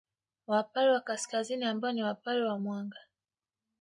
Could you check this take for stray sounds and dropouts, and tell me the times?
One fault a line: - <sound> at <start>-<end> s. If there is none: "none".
none